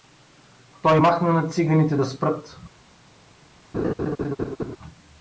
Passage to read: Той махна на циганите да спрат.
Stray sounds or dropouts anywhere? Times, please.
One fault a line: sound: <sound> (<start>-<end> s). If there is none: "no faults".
sound: laugh (3.7-4.8 s)